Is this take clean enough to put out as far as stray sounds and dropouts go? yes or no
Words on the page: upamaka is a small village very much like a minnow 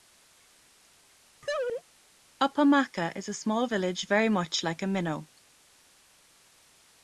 no